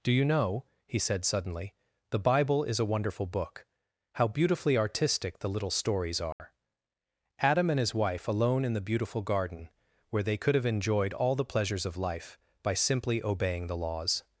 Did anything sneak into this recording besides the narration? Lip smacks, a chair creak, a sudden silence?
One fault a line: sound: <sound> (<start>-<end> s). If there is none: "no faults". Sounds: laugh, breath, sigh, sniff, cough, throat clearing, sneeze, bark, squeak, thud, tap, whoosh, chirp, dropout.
sound: dropout (6.3-6.4 s)